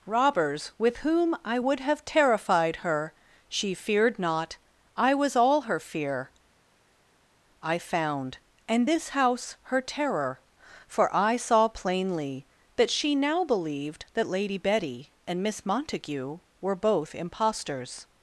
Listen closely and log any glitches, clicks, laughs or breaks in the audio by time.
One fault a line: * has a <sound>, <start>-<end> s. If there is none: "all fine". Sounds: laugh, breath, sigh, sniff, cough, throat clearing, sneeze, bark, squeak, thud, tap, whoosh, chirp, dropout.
all fine